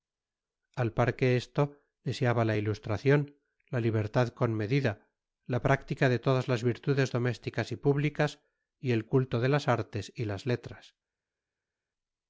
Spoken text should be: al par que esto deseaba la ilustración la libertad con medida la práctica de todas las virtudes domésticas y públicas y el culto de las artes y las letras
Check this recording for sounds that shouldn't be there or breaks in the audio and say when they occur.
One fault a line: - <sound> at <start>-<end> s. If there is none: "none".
none